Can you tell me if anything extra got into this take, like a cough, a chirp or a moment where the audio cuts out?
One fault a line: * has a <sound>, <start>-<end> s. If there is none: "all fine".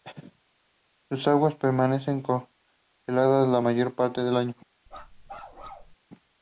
* has a bark, 4.9-6.0 s